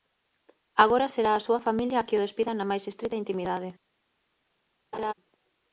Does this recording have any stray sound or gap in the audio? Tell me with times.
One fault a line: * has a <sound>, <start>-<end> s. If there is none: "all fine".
* has a laugh, 4.9-5.1 s